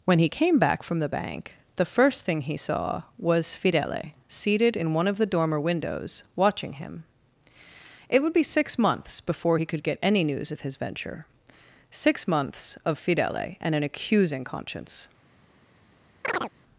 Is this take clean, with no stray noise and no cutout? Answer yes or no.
no